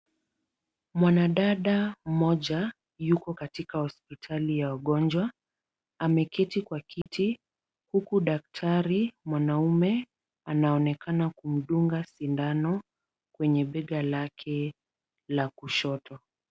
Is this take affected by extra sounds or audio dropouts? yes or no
yes